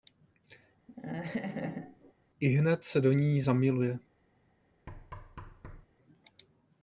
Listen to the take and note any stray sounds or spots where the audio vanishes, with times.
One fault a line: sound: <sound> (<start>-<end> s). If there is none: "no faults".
sound: laugh (0.9-2.1 s)
sound: thud (4.9-5.9 s)